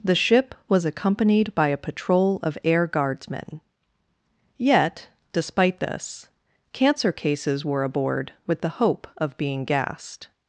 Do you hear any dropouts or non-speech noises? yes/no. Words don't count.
no